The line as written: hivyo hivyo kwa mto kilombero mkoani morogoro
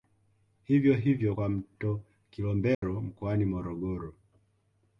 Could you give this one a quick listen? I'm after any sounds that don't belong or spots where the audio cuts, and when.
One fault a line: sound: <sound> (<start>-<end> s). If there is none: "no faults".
sound: dropout (2.7-2.8 s)